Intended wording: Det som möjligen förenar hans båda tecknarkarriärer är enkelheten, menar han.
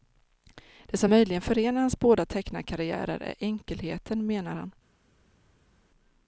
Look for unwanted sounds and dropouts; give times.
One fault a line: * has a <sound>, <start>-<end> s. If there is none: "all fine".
all fine